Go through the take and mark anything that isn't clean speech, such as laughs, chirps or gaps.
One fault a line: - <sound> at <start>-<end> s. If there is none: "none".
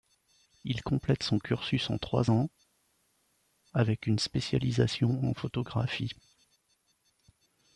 none